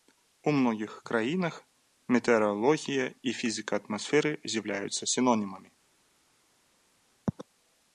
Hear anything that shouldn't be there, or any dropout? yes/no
no